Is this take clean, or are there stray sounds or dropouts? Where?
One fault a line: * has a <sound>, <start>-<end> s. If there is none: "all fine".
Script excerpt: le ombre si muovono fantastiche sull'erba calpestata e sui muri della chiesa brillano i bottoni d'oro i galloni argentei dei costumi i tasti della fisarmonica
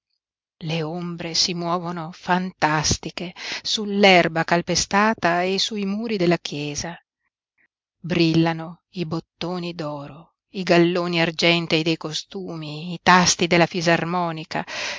all fine